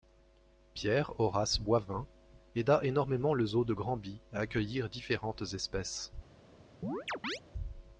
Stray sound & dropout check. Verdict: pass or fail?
fail